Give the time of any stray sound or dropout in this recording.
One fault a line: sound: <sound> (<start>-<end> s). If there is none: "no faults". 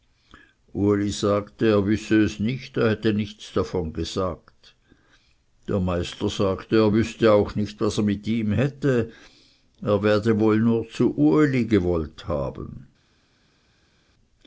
no faults